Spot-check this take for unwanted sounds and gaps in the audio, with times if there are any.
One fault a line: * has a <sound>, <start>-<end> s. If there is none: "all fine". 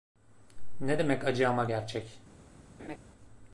* has a laugh, 2.8-3.0 s